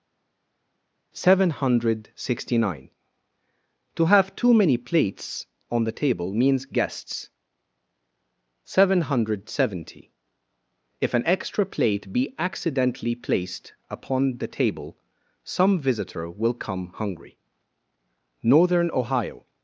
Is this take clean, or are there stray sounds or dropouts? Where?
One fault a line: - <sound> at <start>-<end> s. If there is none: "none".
none